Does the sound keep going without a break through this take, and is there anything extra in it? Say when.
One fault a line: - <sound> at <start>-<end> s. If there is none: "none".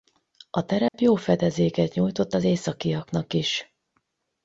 - dropout at 0.9-0.9 s